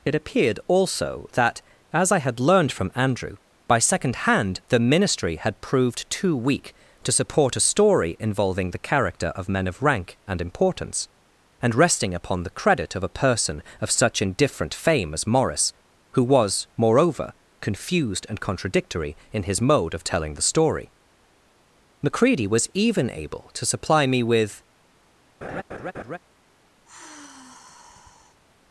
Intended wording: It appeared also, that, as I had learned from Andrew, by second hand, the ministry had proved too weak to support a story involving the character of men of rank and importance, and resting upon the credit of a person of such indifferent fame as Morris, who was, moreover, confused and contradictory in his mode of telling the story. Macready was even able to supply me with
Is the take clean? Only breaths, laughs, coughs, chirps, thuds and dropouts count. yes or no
no